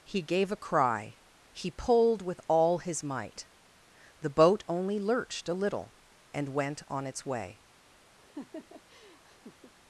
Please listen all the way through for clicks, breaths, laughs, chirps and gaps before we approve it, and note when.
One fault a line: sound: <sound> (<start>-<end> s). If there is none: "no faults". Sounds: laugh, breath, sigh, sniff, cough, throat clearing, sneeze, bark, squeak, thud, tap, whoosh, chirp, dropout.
sound: laugh (8.2-9.7 s)